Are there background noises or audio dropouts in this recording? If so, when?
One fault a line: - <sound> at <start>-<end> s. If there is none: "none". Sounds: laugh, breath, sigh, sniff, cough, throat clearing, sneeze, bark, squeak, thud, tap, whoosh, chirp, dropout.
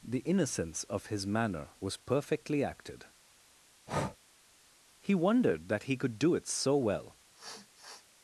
- breath at 3.9-4.2 s
- sniff at 7.3-8.1 s